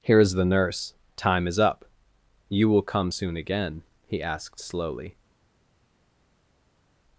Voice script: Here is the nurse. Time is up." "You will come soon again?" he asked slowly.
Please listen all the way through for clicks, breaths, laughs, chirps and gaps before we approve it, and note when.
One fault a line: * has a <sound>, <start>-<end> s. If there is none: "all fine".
all fine